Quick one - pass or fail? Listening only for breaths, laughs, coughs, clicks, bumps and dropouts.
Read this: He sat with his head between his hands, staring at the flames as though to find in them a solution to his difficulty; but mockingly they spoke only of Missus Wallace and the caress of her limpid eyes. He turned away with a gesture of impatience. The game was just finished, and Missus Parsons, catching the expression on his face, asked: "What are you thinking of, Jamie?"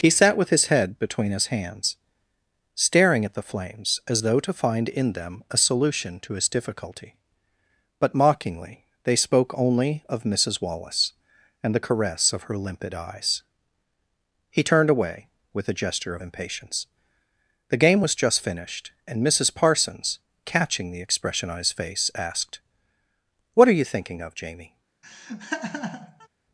fail